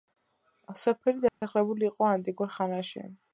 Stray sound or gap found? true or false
true